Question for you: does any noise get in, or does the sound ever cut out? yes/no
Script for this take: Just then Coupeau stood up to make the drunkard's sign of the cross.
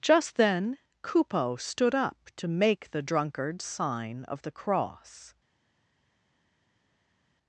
no